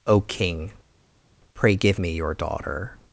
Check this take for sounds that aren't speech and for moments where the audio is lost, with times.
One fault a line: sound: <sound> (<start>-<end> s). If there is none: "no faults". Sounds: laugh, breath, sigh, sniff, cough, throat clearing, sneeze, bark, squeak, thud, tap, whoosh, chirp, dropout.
no faults